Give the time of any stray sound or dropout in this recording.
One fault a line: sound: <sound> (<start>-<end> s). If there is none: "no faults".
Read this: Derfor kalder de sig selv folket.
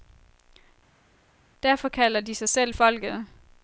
no faults